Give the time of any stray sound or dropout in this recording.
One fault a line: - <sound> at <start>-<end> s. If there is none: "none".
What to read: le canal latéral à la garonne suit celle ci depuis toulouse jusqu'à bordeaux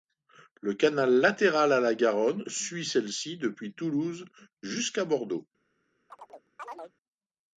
- chirp at 6.1-6.9 s